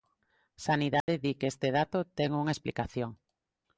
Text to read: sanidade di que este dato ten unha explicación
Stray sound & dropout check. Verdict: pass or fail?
fail